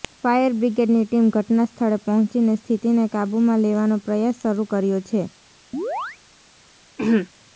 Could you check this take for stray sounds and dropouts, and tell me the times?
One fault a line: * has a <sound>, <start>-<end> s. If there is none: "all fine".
* has a chirp, 5.7-6.2 s
* has a throat clearing, 7.0-7.3 s